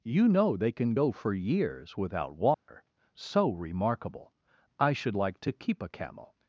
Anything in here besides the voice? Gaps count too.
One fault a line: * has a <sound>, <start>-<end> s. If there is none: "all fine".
* has a dropout, 2.5-2.7 s